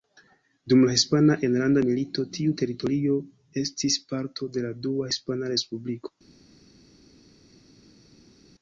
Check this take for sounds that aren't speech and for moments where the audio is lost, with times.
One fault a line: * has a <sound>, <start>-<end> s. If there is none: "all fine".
all fine